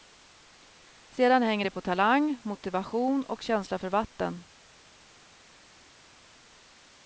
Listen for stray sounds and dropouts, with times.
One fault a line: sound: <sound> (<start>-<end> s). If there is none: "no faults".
no faults